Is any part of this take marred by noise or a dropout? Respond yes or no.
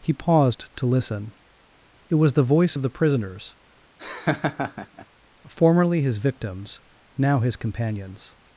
yes